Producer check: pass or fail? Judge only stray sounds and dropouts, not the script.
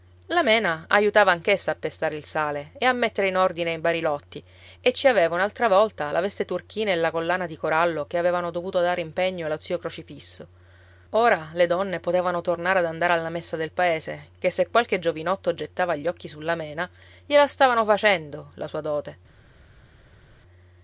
pass